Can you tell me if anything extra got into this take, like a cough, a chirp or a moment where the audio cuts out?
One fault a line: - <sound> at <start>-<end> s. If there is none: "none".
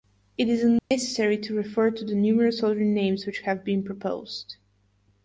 - dropout at 0.8-0.9 s